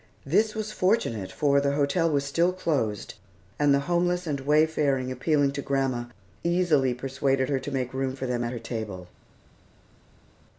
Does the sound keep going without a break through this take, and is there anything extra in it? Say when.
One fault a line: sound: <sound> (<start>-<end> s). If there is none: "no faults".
no faults